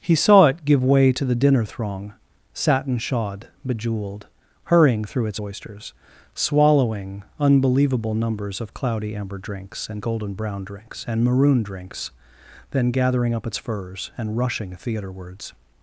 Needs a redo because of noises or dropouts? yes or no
no